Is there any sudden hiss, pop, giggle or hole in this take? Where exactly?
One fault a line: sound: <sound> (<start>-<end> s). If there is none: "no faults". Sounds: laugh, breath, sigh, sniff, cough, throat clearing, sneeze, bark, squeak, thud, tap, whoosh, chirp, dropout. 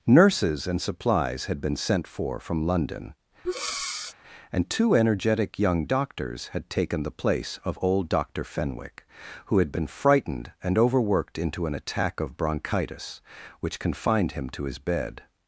sound: breath (3.4-4.1 s)